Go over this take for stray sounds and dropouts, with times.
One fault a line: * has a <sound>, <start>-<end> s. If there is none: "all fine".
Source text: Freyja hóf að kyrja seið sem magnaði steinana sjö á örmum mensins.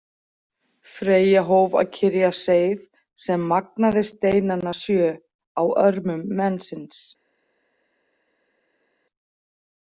all fine